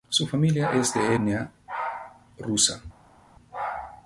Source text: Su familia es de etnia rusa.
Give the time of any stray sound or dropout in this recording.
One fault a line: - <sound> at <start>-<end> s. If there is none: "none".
none